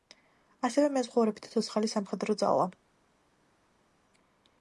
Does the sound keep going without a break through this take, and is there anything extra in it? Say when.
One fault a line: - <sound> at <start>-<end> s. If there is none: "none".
none